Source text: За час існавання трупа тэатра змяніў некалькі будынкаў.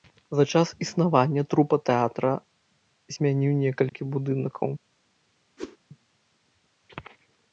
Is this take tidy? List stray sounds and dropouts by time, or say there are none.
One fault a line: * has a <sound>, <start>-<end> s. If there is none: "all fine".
* has a dropout, 3.9-3.9 s
* has a whoosh, 5.6-5.8 s